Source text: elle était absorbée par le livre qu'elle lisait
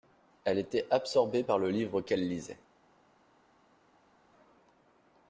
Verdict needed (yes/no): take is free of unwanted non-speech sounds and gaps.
yes